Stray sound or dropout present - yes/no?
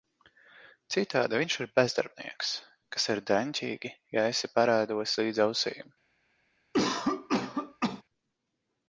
yes